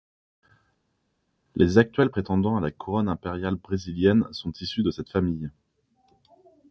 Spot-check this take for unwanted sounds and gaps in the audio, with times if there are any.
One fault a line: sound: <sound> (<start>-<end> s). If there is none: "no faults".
no faults